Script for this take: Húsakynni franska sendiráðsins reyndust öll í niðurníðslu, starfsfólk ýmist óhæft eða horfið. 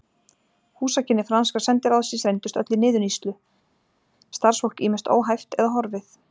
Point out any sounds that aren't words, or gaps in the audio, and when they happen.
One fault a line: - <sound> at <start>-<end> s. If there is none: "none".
none